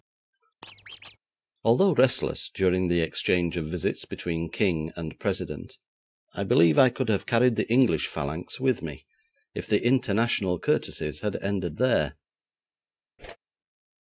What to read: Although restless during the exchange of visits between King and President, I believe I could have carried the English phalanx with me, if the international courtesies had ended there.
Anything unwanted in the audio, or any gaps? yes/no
yes